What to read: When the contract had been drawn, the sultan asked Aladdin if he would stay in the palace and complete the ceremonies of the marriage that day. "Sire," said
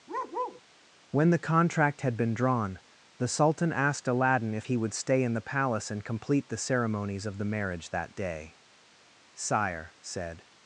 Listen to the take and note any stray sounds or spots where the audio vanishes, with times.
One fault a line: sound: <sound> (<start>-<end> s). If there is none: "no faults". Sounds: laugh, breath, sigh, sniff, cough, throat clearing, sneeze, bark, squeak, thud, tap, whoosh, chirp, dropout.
sound: bark (0.1-0.6 s)